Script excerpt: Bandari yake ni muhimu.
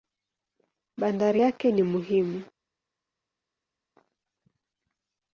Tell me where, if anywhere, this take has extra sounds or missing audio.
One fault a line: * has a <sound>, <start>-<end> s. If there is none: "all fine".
all fine